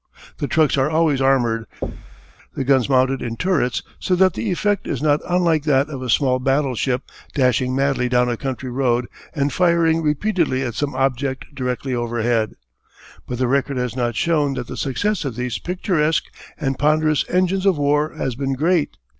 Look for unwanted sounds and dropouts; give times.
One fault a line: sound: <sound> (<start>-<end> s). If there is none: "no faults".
sound: thud (1.8-2.4 s)